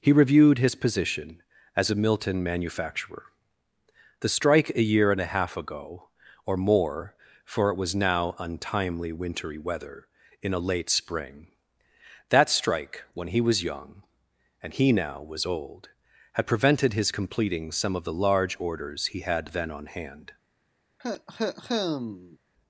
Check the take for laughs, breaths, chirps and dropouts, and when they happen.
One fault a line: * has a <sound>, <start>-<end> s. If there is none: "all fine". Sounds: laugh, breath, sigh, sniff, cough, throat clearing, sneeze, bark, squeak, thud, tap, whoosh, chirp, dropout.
* has a cough, 21.0-22.4 s